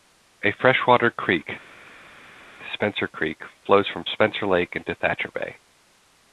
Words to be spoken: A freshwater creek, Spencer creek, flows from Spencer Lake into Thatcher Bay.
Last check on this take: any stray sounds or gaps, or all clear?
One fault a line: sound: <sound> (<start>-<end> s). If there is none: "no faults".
no faults